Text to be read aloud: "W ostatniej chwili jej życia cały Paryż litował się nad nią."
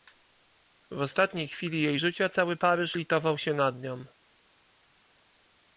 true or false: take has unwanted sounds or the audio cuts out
false